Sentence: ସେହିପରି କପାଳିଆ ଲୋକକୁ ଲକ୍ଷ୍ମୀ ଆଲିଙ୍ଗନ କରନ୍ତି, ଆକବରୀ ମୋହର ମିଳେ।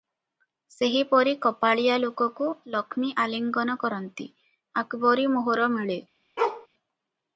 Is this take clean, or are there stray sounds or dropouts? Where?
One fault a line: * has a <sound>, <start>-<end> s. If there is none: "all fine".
* has a bark, 6.4-6.7 s